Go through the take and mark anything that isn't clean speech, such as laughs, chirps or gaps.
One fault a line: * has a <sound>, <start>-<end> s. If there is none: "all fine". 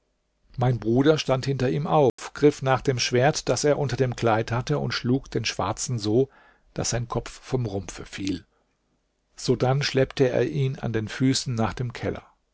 * has a dropout, 2.1-2.2 s